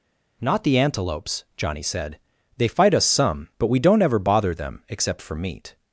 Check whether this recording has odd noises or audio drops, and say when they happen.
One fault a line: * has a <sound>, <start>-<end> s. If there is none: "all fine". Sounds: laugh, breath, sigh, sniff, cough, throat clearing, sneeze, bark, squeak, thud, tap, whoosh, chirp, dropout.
all fine